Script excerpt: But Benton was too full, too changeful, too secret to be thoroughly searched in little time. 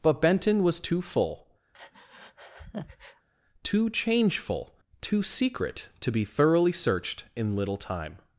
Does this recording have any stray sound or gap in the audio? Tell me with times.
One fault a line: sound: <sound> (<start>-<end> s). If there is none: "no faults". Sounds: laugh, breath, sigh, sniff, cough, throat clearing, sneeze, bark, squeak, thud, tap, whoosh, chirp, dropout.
sound: breath (1.7-3.3 s)